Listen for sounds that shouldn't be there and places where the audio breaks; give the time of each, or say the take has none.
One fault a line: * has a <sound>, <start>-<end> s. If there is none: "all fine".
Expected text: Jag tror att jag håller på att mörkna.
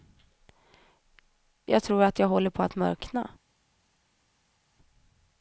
all fine